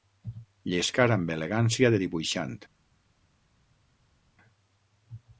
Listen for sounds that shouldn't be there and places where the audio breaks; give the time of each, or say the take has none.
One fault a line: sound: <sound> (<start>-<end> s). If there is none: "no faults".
no faults